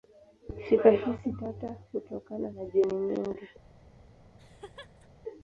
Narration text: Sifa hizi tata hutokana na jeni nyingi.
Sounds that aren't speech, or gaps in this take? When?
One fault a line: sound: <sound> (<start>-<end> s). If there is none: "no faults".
sound: laugh (4.4-5.1 s)